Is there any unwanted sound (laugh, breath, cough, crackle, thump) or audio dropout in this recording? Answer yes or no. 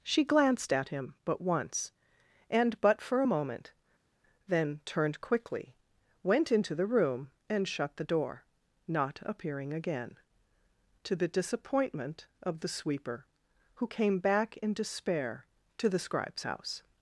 no